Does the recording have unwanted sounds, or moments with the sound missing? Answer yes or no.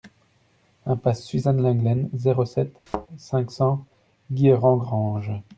yes